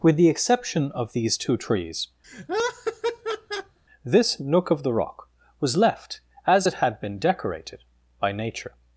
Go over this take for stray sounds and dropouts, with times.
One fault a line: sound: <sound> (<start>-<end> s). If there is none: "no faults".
sound: laugh (2.2-3.8 s)